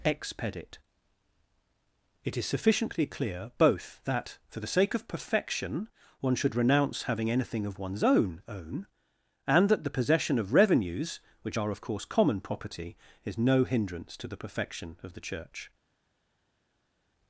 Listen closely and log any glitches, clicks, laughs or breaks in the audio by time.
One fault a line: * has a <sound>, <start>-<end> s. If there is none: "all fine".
all fine